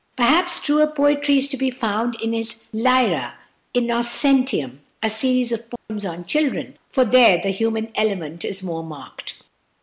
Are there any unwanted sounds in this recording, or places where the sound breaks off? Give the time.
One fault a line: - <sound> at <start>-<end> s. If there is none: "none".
- dropout at 5.8-5.9 s